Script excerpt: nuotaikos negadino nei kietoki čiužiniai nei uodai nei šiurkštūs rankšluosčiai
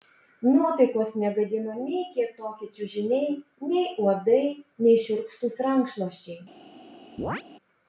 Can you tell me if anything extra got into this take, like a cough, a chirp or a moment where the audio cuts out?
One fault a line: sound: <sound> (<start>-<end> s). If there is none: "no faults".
sound: chirp (7.2-7.4 s)